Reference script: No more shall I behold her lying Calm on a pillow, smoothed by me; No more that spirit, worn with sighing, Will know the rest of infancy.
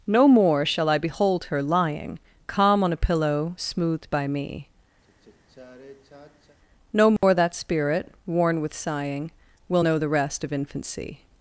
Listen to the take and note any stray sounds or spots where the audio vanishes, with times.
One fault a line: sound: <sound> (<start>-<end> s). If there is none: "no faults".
sound: sigh (5.0-6.6 s)
sound: dropout (7.2-7.2 s)